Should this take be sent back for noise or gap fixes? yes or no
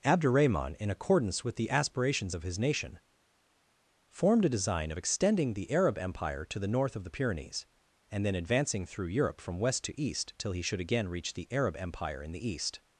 no